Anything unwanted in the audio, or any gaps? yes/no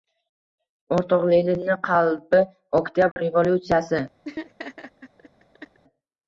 yes